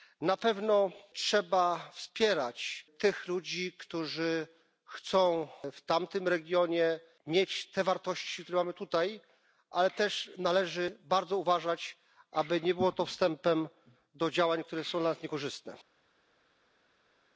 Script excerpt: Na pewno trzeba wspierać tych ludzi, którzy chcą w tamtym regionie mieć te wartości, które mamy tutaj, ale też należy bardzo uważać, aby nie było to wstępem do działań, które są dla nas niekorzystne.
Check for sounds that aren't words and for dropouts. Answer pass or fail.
pass